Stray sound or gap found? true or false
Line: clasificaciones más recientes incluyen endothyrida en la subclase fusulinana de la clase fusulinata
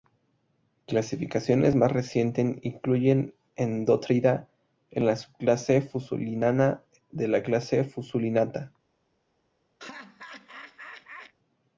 true